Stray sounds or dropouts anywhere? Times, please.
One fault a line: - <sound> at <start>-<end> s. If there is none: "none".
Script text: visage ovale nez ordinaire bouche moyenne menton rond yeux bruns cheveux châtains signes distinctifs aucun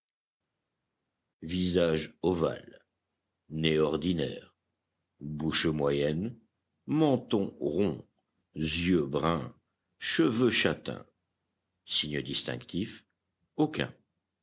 none